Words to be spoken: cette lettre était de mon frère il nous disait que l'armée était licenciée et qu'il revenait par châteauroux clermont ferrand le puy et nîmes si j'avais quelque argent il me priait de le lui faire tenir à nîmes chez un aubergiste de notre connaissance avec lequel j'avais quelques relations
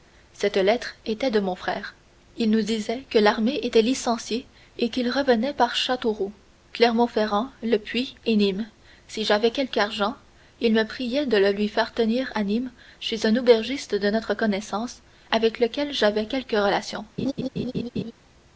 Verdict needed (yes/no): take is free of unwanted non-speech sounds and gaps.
no